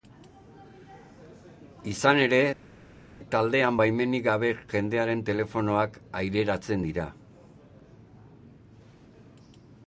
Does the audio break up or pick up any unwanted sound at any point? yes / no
no